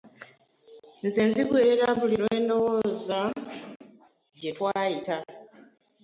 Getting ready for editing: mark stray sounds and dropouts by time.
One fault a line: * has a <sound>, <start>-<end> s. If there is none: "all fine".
all fine